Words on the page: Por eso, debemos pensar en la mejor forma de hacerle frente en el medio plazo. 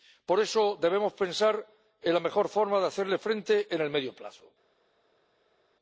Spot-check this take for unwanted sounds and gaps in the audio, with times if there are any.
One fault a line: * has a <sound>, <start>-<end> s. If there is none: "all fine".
all fine